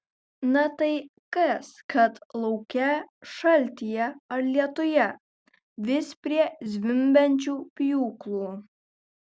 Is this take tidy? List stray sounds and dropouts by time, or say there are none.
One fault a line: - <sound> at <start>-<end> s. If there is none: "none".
none